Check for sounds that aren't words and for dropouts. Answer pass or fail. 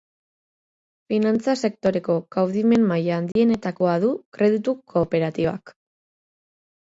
fail